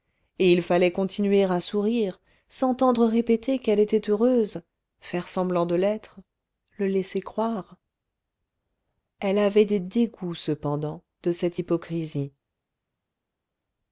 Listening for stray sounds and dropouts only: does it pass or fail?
pass